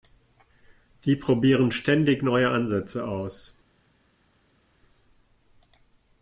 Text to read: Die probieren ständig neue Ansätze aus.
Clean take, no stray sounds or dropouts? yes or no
yes